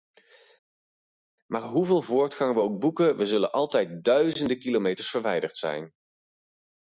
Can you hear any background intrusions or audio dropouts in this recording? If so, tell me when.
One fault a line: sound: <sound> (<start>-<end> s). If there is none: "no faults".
no faults